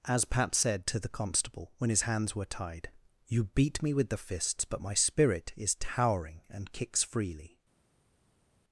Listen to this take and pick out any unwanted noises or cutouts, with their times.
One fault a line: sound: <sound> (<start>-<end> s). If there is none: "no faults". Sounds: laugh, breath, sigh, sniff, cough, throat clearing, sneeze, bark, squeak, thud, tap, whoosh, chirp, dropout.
no faults